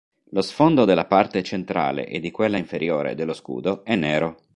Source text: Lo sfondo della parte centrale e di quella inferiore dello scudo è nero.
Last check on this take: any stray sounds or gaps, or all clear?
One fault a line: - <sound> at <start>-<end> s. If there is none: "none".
none